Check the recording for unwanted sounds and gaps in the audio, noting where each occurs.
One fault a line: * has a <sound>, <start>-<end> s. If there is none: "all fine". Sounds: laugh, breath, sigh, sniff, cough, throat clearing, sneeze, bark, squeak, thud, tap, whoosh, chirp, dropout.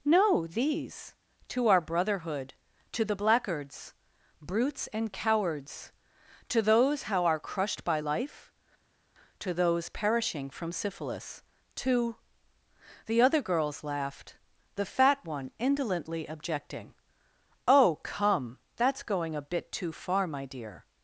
all fine